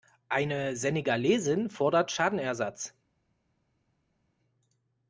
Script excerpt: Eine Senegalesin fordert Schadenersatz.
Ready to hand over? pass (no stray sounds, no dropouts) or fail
pass